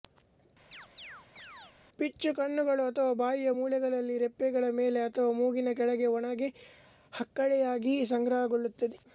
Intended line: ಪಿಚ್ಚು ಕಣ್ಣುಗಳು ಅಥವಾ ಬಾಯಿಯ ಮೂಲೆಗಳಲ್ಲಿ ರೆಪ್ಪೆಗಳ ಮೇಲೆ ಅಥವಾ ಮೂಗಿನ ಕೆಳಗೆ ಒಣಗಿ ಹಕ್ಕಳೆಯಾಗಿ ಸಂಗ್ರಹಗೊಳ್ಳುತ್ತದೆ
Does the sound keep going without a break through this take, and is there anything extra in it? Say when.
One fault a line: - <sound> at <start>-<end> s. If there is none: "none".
- chirp at 0.7-1.8 s